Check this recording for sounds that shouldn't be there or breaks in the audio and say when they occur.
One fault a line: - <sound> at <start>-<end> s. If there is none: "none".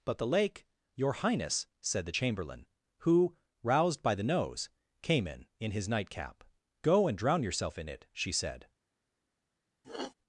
- sniff at 9.8-10.1 s